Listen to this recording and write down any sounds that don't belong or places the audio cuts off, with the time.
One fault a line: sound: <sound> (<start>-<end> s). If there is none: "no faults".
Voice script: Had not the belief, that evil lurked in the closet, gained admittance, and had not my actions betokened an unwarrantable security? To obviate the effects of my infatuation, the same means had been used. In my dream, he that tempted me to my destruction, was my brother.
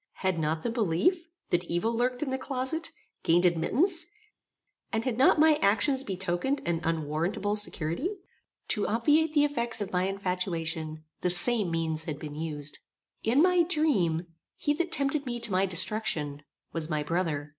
no faults